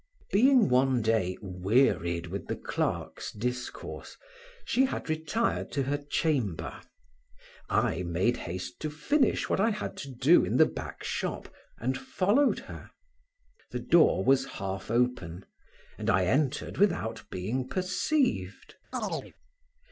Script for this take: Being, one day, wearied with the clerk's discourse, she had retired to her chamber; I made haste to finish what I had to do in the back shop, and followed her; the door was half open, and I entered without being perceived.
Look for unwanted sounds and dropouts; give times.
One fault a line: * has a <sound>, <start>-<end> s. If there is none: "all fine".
* has a chirp, 18.9-19.3 s